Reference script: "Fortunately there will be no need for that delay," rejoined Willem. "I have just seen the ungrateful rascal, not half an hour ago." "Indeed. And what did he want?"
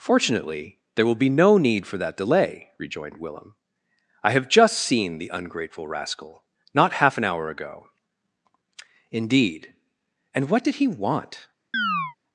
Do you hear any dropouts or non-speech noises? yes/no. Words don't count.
yes